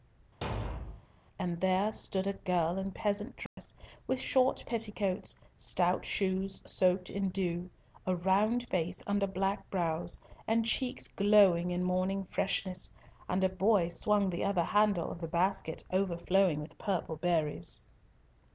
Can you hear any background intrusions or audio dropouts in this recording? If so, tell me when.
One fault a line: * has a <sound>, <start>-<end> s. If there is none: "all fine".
* has a thud, 0.4-1.1 s
* has a dropout, 3.5-3.6 s